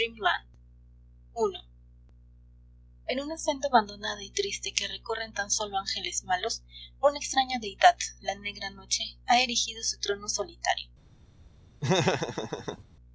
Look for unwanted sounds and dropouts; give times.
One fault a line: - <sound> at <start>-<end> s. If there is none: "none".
- laugh at 11.8-12.8 s